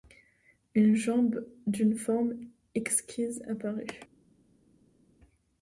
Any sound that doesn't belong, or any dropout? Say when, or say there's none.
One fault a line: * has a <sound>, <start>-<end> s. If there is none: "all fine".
all fine